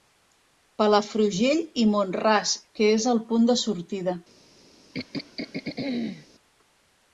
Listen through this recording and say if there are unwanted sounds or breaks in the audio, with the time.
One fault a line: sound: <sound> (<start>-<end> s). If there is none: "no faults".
sound: throat clearing (4.9-6.3 s)